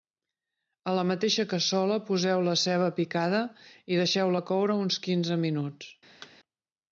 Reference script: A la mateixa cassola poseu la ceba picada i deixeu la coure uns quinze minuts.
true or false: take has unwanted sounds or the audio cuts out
true